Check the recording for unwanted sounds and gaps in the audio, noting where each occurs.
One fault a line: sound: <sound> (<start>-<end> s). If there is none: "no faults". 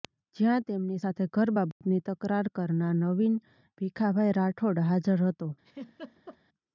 sound: dropout (1.7-1.8 s)
sound: laugh (5.6-6.4 s)